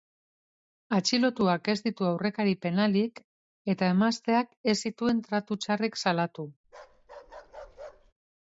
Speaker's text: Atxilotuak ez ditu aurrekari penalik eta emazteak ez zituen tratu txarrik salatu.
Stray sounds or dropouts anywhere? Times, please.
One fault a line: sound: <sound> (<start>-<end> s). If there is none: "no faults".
sound: bark (6.6-8.1 s)